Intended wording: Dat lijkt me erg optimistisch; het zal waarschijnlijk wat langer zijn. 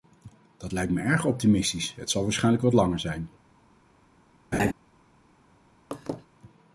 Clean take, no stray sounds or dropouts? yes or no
no